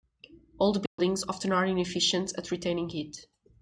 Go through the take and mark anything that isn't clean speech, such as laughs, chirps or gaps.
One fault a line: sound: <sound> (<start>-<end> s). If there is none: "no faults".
sound: dropout (0.9-1.0 s)